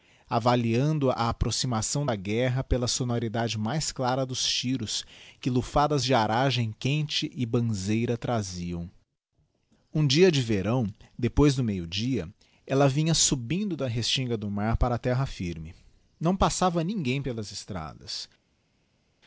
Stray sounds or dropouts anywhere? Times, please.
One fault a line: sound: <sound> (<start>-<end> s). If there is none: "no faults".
no faults